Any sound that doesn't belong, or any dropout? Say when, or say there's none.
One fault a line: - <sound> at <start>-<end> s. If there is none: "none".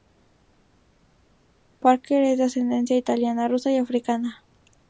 none